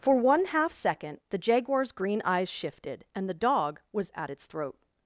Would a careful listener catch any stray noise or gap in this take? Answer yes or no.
no